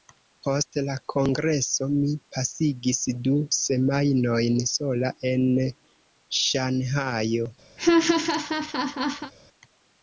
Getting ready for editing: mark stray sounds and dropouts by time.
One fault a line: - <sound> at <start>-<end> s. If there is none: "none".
- laugh at 7.8-9.3 s